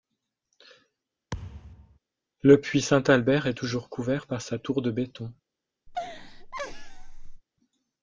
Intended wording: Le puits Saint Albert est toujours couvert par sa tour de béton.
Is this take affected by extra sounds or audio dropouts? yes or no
yes